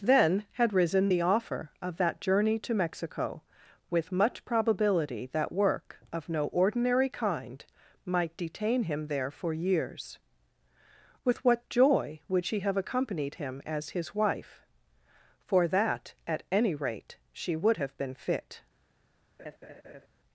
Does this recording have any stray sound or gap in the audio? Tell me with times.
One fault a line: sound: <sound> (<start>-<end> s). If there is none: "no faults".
sound: laugh (19.4-20.1 s)